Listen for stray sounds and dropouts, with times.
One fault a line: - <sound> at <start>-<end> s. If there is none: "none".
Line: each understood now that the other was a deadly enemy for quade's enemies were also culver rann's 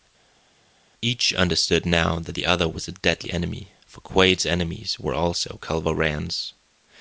none